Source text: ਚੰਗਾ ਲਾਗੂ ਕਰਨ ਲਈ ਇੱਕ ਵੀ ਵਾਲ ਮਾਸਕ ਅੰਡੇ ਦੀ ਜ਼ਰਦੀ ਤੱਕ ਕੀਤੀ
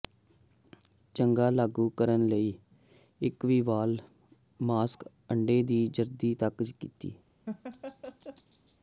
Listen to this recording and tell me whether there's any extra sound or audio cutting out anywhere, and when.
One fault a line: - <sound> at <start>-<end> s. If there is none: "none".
- laugh at 7.5-8.8 s